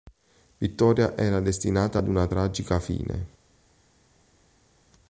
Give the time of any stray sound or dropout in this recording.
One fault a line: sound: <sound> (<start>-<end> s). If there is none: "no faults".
no faults